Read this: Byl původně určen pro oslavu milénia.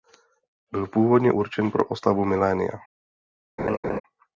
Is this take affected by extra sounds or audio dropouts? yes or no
yes